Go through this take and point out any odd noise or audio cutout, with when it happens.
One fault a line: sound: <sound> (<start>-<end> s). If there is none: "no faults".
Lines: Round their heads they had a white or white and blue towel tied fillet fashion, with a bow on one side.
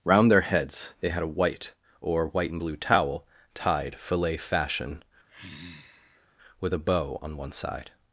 sound: sigh (5.3-6.3 s)